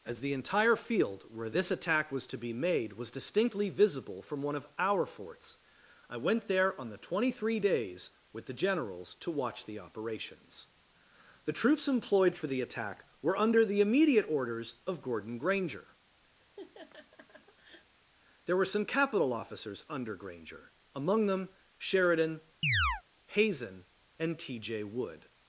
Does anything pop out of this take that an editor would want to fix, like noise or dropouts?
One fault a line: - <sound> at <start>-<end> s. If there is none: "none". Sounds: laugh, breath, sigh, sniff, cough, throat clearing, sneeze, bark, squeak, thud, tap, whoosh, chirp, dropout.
- laugh at 16.4-17.9 s
- chirp at 22.6-23.0 s